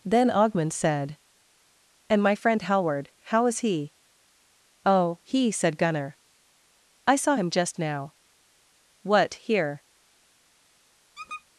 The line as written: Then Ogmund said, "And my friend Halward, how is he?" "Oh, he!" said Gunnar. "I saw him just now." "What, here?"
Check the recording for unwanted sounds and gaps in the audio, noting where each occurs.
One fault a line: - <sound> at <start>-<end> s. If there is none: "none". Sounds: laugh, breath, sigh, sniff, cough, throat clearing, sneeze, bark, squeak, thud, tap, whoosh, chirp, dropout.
- squeak at 11.1-11.4 s